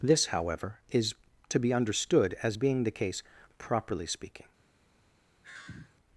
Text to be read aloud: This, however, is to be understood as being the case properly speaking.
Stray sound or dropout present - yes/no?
yes